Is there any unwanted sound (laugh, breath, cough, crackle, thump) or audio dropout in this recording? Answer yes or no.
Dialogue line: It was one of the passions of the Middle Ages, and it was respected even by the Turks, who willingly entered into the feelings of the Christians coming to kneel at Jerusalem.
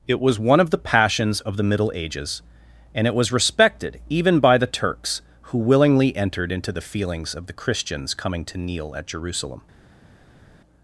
no